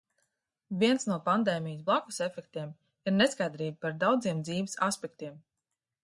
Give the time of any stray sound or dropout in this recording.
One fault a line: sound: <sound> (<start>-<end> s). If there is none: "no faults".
no faults